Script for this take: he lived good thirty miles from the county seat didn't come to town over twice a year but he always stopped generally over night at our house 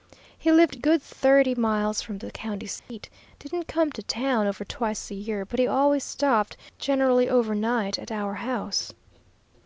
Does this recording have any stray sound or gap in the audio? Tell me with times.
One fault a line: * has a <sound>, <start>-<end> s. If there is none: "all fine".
* has a dropout, 2.8-2.9 s